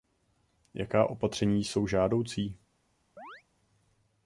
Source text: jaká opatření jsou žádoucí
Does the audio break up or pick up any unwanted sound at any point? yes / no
yes